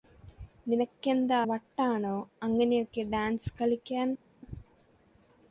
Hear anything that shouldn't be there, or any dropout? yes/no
no